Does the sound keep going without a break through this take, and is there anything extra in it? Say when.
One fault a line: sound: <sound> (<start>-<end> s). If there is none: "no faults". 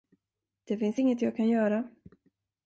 no faults